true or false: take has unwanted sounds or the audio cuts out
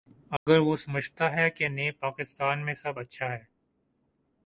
true